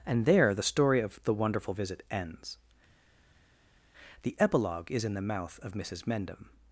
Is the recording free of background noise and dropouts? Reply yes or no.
yes